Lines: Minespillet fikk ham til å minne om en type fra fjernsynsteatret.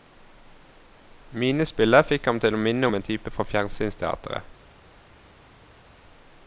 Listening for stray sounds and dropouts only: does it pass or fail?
pass